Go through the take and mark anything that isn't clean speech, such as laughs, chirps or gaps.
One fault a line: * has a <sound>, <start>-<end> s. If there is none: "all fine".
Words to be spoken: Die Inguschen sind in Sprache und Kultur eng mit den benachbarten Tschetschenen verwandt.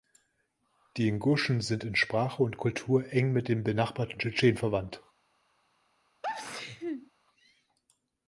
* has a sneeze, 6.2-7.1 s